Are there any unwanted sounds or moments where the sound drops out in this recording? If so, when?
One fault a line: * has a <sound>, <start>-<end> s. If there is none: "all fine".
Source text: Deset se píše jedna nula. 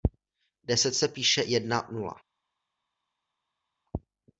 all fine